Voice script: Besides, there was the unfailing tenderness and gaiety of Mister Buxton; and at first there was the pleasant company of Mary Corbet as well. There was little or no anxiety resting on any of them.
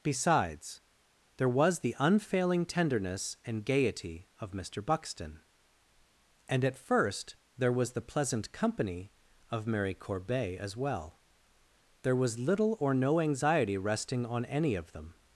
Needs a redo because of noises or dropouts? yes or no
no